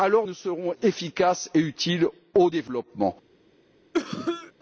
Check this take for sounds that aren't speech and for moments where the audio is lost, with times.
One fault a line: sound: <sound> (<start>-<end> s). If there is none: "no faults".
sound: cough (3.9-4.5 s)